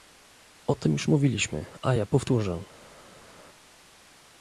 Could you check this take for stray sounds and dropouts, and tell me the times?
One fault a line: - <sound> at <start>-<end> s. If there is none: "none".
none